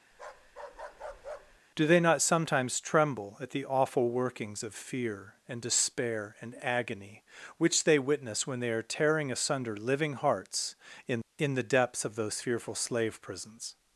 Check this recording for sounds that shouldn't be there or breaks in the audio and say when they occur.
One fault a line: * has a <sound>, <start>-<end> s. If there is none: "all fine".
* has a bark, 0.1-1.6 s